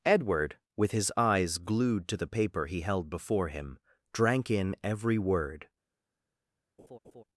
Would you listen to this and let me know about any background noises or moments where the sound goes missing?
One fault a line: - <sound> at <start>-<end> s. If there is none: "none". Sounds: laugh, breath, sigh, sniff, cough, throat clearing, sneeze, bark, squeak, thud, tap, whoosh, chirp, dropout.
- laugh at 6.8-7.2 s